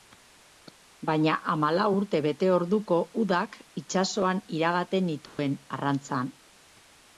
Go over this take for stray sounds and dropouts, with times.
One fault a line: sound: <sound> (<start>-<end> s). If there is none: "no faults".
sound: dropout (5.3-5.4 s)